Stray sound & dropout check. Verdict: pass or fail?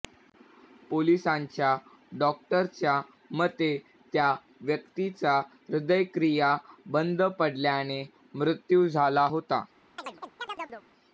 fail